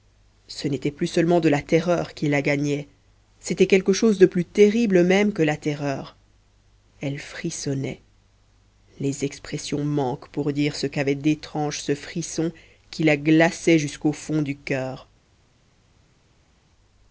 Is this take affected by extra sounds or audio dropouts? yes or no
no